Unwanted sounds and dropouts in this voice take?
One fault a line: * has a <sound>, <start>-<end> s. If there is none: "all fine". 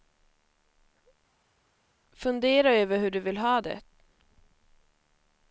all fine